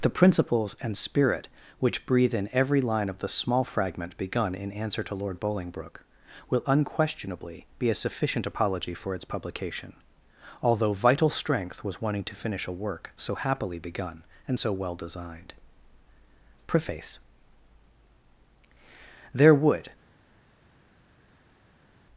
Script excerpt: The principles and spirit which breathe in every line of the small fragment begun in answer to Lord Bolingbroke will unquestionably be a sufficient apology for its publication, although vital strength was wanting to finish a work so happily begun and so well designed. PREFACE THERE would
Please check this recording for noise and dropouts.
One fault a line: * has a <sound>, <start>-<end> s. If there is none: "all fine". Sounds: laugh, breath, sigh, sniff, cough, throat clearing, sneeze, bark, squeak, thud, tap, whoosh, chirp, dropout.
all fine